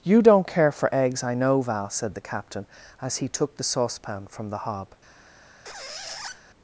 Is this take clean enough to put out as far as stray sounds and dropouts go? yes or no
no